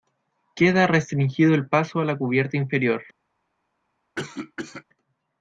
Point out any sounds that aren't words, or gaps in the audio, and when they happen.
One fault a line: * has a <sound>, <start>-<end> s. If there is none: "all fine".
* has a cough, 4.2-4.8 s